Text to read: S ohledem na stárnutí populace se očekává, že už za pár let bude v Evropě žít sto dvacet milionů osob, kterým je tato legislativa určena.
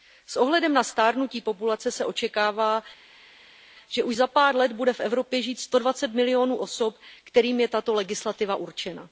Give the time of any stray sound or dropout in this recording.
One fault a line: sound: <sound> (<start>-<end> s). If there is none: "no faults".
no faults